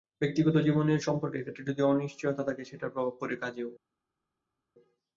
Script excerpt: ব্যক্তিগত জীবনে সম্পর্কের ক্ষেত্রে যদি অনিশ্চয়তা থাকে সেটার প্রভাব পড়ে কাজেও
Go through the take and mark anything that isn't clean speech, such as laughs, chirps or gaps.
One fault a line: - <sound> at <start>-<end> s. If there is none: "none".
none